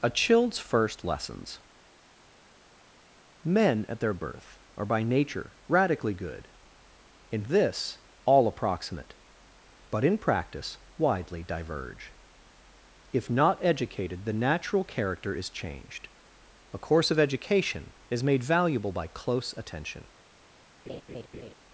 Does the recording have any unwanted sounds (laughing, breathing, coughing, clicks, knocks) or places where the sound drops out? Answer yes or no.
yes